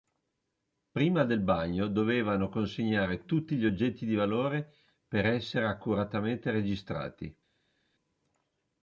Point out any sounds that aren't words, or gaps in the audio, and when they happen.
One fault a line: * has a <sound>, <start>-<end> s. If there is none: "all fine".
all fine